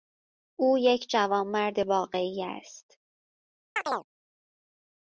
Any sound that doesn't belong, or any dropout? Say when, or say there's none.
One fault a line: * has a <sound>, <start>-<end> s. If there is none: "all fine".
* has a chirp, 3.8-4.1 s